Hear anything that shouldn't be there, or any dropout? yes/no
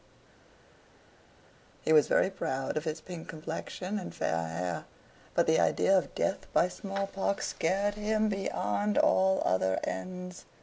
no